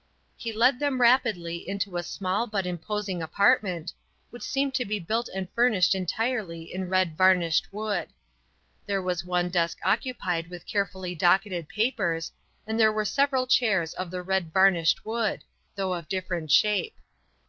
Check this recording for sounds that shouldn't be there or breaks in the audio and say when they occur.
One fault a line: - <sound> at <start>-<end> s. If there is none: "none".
none